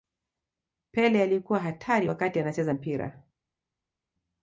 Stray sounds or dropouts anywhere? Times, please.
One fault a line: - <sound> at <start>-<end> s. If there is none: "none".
none